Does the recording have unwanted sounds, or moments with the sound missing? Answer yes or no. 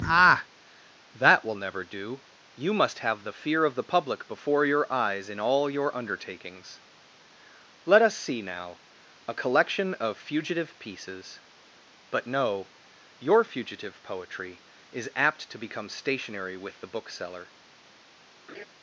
yes